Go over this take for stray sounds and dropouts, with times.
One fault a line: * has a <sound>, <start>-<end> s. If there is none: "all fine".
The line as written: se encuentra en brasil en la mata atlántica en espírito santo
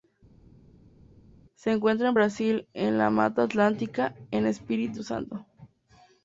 all fine